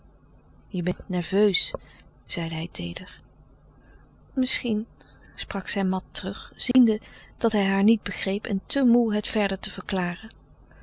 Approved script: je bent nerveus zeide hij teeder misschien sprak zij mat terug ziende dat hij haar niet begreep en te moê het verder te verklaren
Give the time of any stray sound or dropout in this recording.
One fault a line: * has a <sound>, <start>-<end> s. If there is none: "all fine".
* has a dropout, 6.7-6.7 s